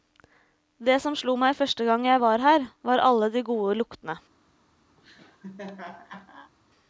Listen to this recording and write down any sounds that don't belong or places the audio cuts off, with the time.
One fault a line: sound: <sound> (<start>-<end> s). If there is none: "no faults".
sound: laugh (5.0-6.5 s)